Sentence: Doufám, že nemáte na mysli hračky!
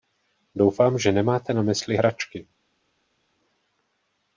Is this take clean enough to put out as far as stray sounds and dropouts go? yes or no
yes